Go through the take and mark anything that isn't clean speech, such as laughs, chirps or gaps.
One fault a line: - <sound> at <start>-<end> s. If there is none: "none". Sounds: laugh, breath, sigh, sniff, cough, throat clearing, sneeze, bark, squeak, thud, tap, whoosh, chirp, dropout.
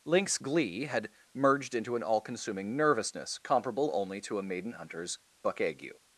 none